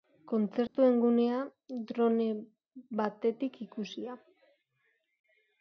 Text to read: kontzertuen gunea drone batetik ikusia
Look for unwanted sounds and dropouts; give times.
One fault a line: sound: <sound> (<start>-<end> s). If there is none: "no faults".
sound: dropout (0.7-0.7 s)